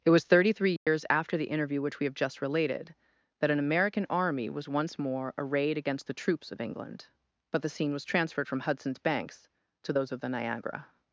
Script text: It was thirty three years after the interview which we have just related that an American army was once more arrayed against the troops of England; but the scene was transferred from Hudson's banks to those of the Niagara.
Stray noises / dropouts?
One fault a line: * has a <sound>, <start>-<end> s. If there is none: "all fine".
* has a dropout, 0.8-0.9 s